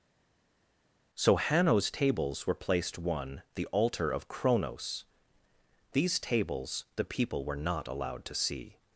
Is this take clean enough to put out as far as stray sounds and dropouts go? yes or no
yes